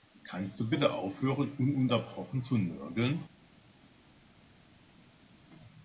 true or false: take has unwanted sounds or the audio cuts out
false